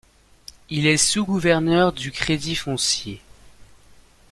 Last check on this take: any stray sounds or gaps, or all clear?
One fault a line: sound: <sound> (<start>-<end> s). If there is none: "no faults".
no faults